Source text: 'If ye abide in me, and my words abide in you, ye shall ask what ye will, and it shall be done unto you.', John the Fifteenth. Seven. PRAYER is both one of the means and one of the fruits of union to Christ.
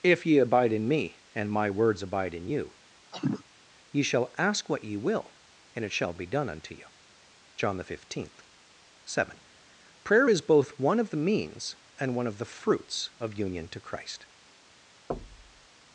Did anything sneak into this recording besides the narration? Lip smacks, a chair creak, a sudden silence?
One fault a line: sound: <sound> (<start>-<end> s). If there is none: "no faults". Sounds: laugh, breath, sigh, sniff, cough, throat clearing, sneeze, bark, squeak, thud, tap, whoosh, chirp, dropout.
sound: cough (3.1-3.4 s)
sound: thud (15.1-15.7 s)